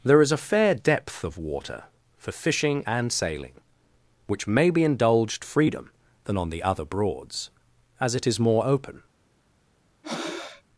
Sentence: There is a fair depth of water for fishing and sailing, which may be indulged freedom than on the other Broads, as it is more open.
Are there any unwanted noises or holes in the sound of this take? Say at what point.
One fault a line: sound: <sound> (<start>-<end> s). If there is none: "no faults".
sound: breath (10.0-10.6 s)